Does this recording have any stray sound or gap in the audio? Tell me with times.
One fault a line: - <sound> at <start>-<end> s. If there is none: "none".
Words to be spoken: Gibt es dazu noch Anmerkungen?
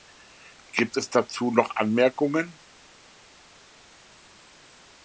none